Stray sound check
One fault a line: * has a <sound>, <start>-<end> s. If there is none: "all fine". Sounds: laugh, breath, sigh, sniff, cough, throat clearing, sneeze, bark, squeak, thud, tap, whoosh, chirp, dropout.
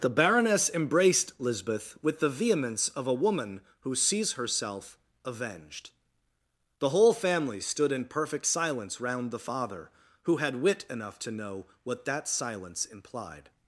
all fine